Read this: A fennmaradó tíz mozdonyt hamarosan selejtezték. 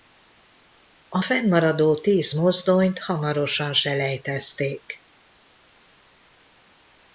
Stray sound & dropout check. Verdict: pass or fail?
pass